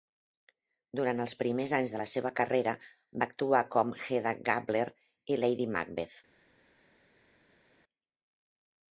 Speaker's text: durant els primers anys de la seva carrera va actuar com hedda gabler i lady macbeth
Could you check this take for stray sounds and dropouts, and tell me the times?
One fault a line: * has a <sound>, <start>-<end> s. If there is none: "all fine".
all fine